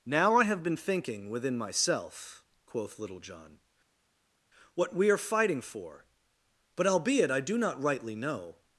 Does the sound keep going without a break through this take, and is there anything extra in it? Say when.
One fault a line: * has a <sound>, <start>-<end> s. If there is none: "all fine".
all fine